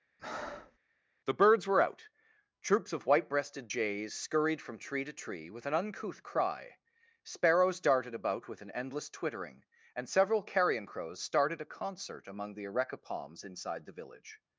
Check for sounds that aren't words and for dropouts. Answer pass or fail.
fail